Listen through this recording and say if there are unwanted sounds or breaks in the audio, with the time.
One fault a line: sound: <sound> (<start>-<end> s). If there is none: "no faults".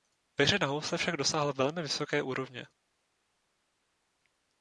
no faults